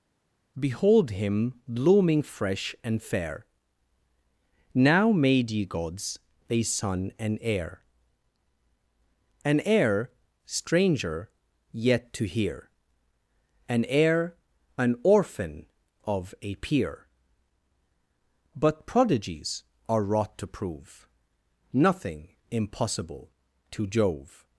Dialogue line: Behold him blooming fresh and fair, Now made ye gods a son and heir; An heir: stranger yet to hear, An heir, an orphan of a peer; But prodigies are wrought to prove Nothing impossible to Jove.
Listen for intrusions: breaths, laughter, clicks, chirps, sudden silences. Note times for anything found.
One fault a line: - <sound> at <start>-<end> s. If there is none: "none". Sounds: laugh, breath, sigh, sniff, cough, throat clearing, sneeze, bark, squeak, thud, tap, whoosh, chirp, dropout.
none